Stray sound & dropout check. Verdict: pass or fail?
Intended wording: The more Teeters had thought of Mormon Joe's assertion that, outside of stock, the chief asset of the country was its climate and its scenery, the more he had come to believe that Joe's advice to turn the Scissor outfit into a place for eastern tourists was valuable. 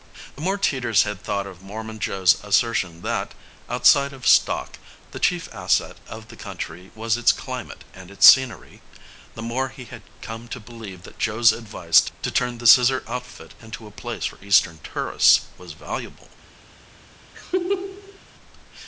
fail